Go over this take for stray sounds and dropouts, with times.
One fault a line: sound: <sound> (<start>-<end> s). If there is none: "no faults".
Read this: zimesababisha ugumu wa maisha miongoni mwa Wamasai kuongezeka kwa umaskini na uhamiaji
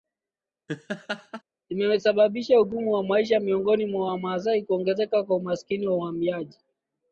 sound: laugh (0.7-1.4 s)